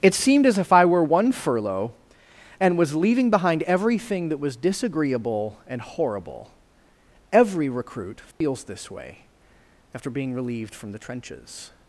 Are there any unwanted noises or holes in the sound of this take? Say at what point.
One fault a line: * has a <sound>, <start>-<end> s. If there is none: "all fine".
* has a dropout, 8.3-8.4 s